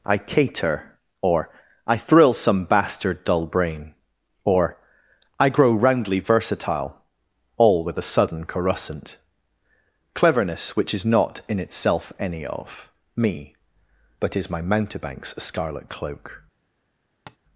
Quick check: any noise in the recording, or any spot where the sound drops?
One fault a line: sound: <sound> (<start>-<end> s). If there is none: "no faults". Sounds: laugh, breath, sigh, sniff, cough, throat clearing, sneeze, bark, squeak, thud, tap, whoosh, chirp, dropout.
sound: tap (17.3-17.4 s)